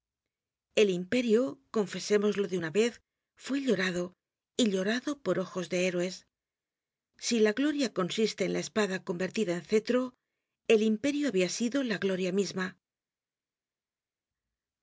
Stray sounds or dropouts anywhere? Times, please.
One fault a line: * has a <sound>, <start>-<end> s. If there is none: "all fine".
all fine